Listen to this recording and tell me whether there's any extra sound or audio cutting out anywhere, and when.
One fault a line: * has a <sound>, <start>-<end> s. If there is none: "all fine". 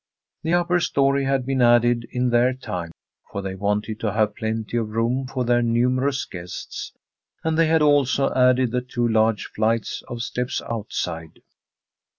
all fine